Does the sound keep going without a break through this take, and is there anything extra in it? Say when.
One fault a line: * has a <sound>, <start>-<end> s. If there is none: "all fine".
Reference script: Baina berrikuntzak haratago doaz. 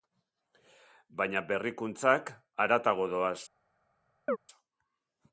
* has a chirp, 4.3-4.4 s